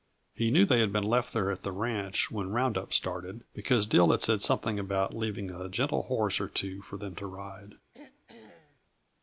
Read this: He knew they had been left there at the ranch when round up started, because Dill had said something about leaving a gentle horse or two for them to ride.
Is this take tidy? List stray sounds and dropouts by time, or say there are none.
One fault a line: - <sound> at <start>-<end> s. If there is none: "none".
- throat clearing at 7.9-8.8 s